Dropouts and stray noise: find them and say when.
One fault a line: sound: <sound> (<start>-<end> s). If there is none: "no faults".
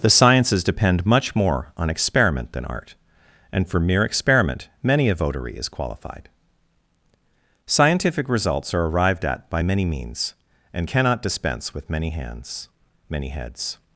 no faults